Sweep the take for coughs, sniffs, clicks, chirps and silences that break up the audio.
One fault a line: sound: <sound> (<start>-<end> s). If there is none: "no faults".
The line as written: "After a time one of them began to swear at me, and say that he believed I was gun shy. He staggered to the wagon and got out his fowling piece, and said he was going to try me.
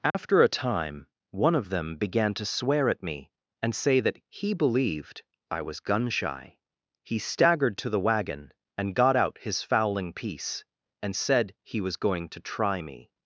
sound: dropout (0.1-0.1 s)